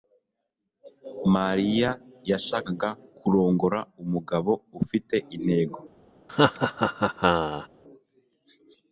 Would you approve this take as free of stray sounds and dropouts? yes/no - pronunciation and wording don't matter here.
no